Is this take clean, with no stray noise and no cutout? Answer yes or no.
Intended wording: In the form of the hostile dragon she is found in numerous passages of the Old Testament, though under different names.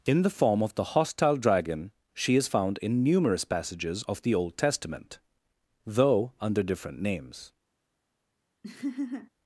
no